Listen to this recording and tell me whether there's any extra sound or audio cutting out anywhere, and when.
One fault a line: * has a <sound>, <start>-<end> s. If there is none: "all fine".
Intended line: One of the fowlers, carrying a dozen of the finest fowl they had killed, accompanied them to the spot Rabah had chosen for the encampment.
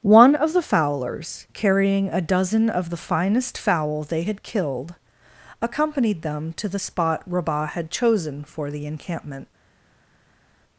all fine